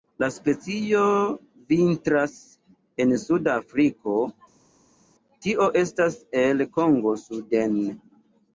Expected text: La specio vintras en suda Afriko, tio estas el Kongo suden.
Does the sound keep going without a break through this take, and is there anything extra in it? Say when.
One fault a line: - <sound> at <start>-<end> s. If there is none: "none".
none